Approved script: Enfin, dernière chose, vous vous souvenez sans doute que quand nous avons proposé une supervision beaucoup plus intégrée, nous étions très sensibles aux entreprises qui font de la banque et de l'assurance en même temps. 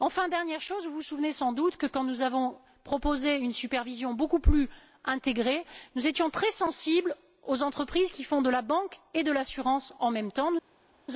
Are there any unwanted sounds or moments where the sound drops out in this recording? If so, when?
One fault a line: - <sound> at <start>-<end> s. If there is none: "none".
none